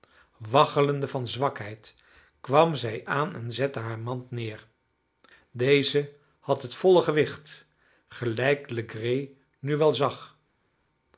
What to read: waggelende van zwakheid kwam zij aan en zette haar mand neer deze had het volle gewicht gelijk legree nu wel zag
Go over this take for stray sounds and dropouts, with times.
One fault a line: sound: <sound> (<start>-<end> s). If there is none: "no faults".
no faults